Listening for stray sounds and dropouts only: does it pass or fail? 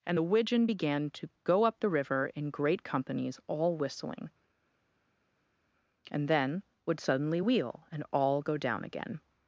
pass